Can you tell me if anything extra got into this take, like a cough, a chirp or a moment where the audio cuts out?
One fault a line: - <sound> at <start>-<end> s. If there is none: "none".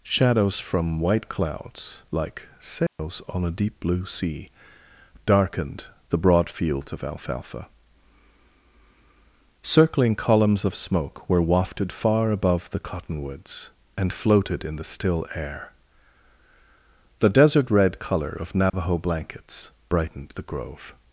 - dropout at 2.9-3.0 s
- dropout at 18.7-18.7 s